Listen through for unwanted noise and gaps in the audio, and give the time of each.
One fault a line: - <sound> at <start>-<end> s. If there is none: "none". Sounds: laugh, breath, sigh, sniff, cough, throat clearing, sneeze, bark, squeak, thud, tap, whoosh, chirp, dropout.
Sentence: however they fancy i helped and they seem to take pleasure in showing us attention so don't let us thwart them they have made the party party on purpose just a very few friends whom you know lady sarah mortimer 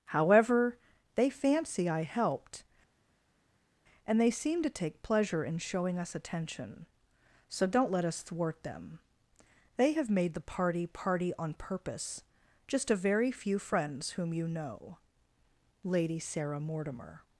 none